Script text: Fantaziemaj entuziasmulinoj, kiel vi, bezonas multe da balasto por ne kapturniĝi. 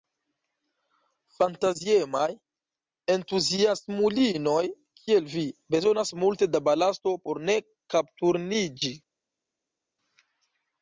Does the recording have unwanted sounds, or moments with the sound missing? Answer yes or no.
no